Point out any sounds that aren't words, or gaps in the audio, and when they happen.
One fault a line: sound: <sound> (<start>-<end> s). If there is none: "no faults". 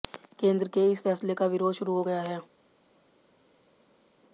no faults